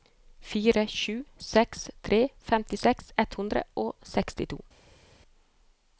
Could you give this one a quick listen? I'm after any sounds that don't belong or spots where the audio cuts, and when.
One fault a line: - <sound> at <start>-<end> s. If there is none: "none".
none